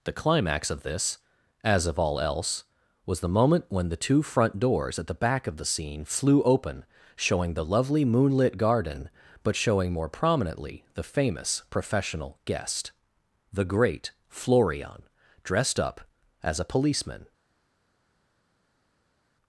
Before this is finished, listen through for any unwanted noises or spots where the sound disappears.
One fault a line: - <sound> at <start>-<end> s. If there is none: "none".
none